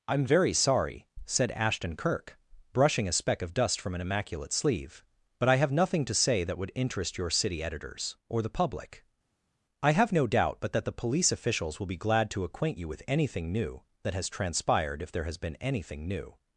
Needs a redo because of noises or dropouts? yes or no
no